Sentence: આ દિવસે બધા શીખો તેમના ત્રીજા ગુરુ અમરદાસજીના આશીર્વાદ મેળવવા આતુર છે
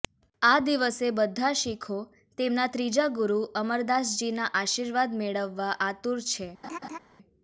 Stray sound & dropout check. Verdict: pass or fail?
fail